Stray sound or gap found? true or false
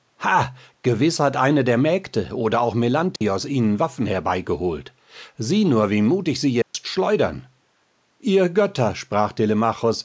true